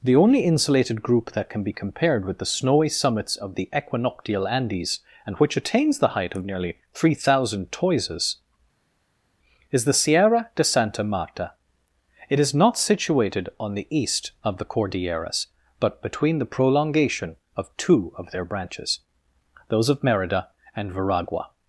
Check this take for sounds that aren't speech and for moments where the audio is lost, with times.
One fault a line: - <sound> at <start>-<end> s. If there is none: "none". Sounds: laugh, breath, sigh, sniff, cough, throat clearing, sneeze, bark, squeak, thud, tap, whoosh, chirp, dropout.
none